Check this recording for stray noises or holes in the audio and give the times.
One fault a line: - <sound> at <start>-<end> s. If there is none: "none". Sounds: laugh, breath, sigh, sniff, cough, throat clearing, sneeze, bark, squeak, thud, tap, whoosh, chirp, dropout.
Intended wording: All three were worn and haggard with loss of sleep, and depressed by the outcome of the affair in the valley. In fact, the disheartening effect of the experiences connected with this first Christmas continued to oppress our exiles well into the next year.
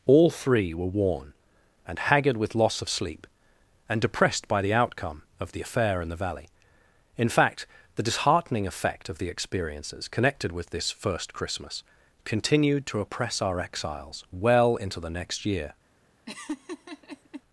- laugh at 16.3-17.4 s